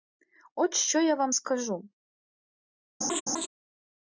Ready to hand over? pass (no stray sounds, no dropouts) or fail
fail